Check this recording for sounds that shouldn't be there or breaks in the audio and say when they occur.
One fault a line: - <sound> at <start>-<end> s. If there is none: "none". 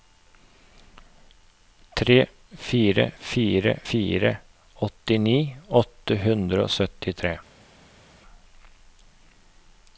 none